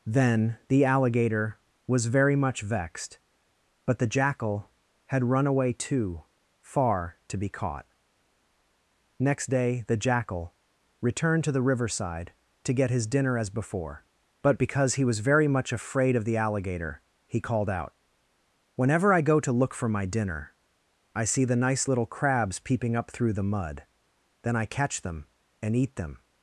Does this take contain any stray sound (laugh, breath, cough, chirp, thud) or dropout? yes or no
no